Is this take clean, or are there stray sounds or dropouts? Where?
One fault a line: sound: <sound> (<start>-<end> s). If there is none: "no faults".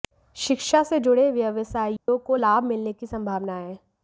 sound: dropout (2.0-2.1 s)